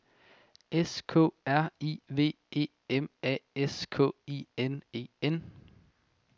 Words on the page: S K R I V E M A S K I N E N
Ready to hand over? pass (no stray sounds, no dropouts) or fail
pass